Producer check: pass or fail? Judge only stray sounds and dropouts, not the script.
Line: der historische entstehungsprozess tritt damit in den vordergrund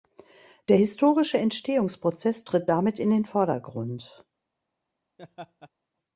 fail